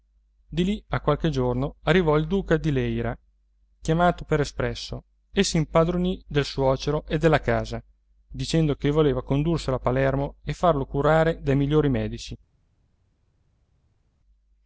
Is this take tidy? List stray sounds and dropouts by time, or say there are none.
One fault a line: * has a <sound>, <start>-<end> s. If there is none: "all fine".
all fine